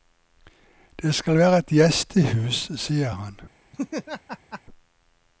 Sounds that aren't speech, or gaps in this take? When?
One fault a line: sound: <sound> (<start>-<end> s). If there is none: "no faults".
sound: laugh (3.7-4.6 s)